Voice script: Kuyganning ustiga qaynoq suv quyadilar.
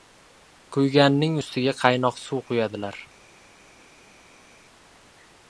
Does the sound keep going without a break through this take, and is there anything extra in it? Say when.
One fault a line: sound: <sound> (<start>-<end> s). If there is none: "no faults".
no faults